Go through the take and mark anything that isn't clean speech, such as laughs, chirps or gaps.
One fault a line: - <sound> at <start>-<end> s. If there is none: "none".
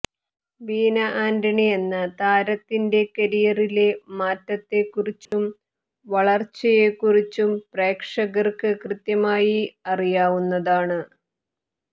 - dropout at 5.3-5.3 s